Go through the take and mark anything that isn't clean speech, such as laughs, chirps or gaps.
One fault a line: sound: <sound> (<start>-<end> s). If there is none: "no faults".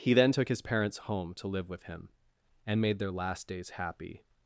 no faults